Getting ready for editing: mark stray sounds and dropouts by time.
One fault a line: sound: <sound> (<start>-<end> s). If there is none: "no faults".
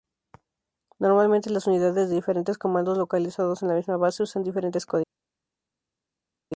no faults